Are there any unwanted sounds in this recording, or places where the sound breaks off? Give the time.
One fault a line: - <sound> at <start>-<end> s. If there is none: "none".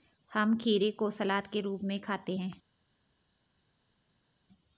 none